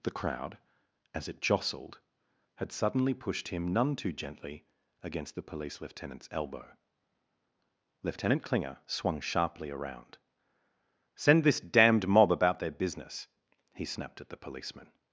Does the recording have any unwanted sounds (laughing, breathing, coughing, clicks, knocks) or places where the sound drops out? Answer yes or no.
no